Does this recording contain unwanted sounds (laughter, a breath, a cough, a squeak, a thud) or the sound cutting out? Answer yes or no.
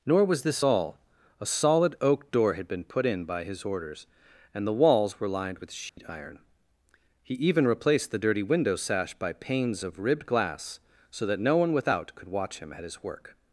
yes